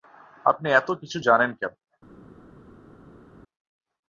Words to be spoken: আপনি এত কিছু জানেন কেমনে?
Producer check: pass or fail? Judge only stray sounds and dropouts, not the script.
pass